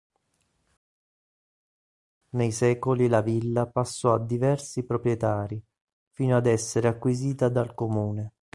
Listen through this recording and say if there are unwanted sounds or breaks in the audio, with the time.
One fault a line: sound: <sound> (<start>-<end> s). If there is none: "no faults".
no faults